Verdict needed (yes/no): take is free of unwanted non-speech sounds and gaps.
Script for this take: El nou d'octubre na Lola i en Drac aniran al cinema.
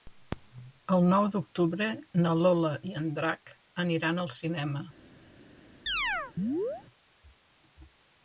no